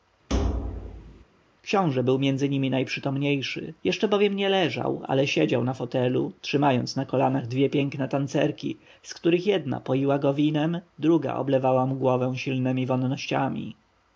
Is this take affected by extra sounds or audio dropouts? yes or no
yes